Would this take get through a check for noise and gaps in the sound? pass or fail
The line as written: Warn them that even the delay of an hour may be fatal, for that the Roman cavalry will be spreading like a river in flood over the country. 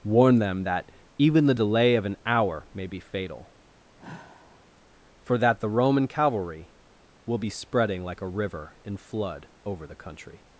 fail